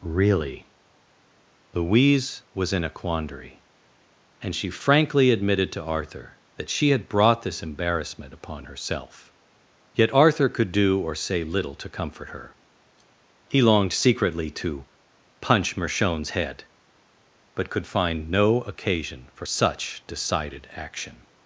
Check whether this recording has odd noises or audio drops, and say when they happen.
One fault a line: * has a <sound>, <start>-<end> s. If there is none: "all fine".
all fine